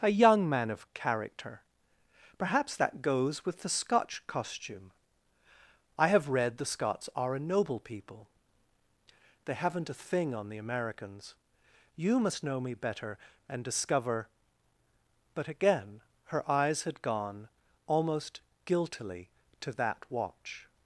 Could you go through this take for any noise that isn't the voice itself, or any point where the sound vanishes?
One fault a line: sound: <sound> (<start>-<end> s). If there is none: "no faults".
no faults